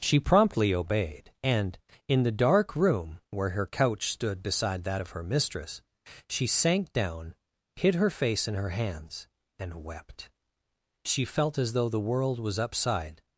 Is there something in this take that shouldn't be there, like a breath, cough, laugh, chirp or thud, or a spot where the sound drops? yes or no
no